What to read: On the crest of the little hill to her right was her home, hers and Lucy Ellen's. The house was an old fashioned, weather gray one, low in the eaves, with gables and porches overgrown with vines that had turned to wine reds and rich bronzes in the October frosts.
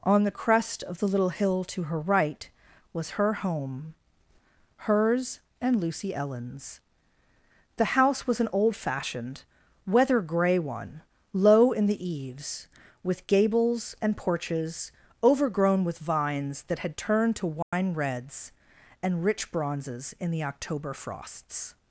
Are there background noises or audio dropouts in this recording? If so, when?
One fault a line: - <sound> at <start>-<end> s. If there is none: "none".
- dropout at 17.6-17.7 s